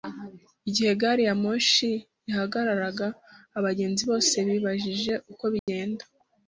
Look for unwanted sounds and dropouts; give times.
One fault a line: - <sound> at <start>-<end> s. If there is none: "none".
- dropout at 5.6-5.7 s